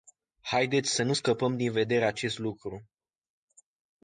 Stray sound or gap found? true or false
false